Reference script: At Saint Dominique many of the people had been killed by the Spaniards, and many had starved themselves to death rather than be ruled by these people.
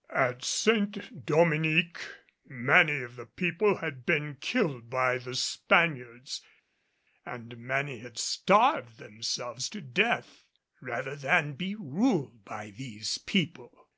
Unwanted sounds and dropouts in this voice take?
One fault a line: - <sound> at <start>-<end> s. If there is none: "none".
none